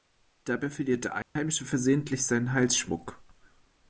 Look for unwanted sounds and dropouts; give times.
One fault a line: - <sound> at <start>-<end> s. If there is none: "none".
- dropout at 1.2-1.4 s